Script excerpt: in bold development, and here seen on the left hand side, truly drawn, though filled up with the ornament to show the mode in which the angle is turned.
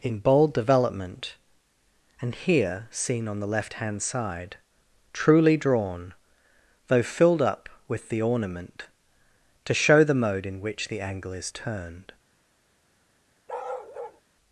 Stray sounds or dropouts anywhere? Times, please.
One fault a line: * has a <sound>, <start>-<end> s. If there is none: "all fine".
* has a bark, 13.5-14.2 s